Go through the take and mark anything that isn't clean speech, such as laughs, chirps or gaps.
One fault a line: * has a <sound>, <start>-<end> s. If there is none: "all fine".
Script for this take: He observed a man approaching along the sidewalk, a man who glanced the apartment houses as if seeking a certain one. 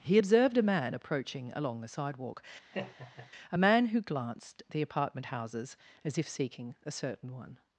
* has a laugh, 2.7-3.3 s